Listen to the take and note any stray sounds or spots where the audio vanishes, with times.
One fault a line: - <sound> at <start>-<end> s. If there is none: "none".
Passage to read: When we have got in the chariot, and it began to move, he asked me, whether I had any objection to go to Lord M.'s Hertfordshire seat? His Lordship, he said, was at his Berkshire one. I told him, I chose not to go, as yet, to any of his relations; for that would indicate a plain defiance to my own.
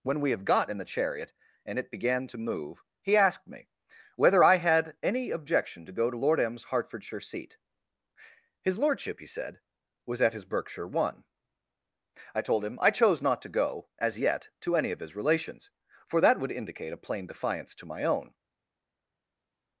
none